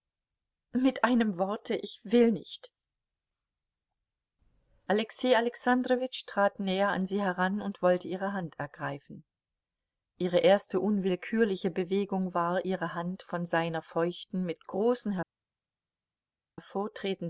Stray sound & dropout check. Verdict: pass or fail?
pass